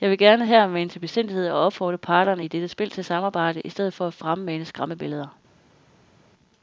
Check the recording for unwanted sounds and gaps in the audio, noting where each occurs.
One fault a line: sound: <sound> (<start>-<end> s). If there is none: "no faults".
no faults